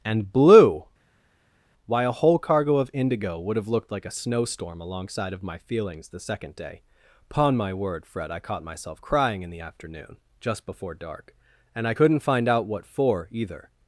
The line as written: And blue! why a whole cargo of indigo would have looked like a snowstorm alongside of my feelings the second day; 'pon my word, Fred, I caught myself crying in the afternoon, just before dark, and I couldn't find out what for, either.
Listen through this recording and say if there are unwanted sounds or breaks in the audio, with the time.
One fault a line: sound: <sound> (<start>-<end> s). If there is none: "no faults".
no faults